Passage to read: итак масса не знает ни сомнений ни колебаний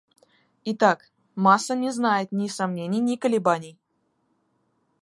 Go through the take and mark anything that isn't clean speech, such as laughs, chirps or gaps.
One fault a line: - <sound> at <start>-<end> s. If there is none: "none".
none